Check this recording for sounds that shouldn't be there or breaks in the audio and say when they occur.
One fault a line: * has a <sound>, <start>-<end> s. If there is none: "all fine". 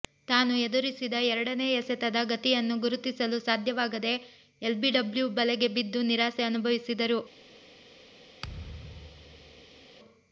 * has a thud, 8.4-9.9 s